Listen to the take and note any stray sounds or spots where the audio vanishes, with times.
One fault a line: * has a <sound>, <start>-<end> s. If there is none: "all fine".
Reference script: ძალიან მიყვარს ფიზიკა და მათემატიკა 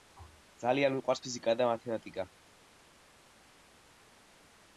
all fine